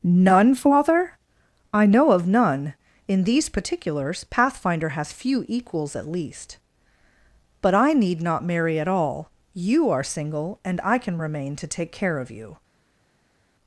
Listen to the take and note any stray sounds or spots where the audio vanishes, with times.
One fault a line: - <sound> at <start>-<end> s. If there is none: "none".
none